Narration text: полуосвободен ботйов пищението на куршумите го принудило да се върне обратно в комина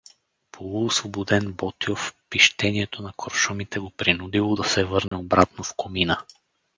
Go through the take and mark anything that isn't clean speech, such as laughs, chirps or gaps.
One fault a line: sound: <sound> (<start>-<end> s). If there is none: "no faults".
sound: dropout (5.1-5.1 s)